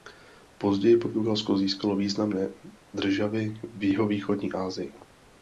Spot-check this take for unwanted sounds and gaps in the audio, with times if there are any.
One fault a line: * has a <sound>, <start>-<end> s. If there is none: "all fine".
all fine